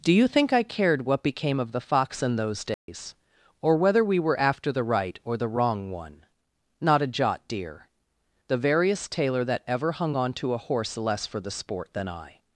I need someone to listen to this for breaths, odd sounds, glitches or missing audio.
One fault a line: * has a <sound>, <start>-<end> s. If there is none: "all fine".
* has a dropout, 2.7-2.9 s